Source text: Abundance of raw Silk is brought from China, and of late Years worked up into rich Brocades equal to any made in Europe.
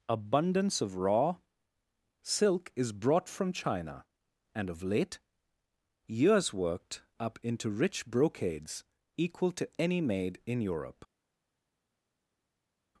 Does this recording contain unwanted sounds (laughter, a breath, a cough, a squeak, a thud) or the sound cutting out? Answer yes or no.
no